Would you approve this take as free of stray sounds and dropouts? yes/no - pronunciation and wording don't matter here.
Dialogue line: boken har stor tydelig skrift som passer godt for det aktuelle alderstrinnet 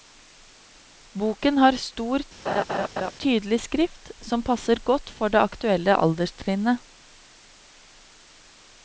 no